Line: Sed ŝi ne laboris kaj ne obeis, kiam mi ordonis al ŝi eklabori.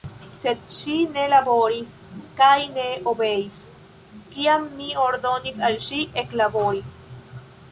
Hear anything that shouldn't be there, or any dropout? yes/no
no